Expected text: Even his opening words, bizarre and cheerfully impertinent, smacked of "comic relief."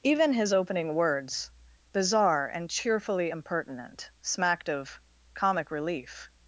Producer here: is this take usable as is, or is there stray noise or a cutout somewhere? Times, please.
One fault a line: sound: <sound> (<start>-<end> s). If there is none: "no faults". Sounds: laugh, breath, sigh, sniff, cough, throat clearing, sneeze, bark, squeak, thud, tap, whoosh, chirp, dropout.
no faults